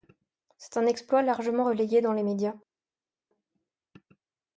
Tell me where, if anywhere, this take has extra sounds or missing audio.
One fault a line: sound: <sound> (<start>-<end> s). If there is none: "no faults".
no faults